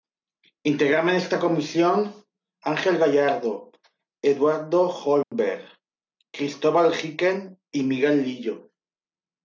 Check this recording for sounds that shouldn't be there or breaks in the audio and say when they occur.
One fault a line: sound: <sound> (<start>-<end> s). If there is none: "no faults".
sound: dropout (5.2-5.3 s)